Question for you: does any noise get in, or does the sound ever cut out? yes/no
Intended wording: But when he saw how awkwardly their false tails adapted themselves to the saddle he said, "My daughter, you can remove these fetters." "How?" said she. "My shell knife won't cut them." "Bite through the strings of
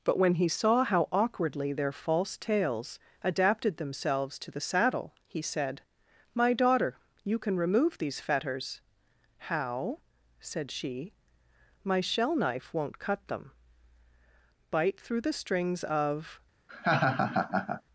yes